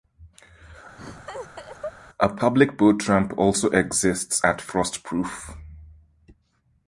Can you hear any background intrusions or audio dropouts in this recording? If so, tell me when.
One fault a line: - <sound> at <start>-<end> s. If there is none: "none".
- laugh at 1.0-1.9 s